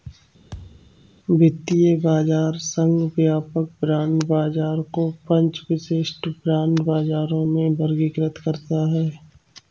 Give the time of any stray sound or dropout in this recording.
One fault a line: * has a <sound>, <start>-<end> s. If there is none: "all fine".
* has a thud, 0.5-1.0 s